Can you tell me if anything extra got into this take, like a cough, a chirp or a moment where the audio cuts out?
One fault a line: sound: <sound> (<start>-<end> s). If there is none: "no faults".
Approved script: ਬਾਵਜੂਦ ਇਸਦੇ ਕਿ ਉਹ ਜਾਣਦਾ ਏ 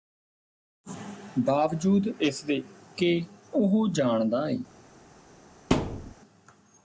sound: thud (5.7-6.1 s)